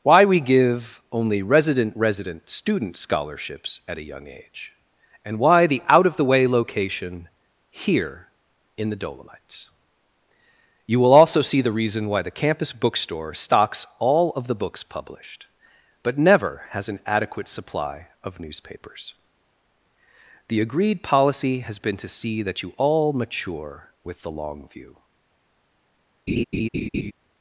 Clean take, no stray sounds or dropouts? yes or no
no